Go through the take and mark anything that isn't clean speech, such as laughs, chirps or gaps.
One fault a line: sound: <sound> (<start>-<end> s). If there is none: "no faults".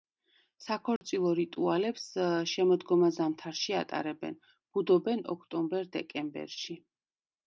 sound: dropout (1.0-1.0 s)